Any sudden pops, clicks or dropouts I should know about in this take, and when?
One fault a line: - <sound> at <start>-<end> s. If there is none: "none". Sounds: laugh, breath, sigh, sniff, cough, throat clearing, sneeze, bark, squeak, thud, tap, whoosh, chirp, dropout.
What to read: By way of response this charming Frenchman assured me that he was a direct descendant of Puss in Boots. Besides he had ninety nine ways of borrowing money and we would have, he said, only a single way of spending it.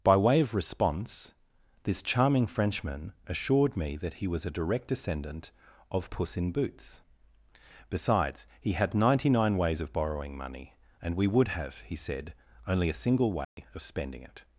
- dropout at 13.4-13.6 s